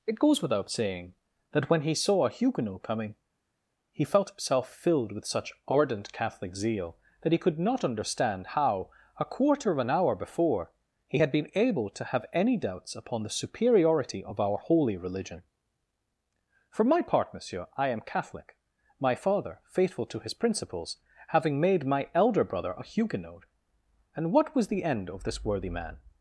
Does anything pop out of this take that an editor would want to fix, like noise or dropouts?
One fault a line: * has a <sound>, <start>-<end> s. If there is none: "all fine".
all fine